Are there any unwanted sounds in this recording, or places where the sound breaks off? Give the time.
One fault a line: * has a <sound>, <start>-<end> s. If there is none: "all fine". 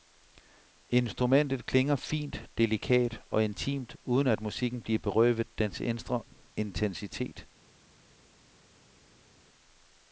all fine